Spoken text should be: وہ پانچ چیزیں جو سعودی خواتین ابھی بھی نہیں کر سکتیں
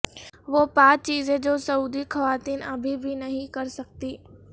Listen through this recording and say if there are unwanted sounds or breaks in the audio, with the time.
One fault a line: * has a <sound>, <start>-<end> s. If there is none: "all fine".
all fine